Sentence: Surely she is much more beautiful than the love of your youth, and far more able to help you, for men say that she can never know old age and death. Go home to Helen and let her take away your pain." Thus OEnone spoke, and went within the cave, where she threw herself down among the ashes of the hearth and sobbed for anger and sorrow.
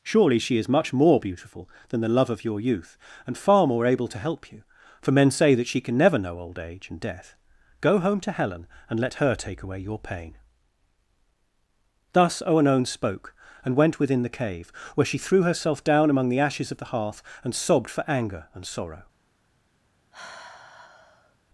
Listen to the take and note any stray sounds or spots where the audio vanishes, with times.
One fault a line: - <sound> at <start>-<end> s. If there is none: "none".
- sigh at 20.1-21.4 s